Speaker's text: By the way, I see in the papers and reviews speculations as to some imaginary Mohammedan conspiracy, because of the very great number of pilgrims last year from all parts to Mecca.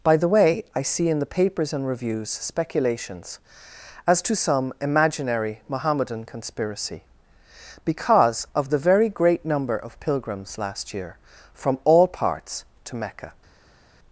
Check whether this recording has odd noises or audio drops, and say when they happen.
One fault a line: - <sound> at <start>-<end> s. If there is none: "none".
none